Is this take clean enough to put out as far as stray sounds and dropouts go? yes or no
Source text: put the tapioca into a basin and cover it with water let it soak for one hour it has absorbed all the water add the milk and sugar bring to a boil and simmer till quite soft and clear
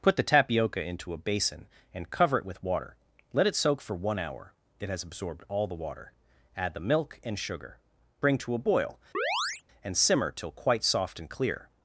no